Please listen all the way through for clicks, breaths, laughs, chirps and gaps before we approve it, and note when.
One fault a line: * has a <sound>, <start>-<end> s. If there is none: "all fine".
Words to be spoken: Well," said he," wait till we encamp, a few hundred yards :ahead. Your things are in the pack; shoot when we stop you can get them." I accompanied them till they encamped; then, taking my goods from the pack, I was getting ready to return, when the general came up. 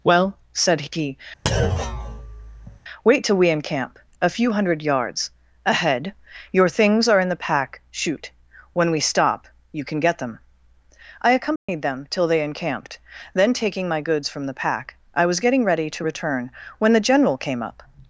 * has a thud, 1.5-2.8 s
* has a dropout, 11.6-11.7 s